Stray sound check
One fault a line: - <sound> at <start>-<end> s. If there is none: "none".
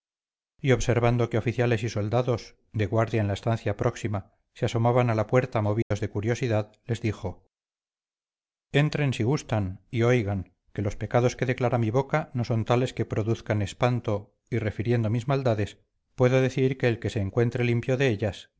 - dropout at 5.8-5.9 s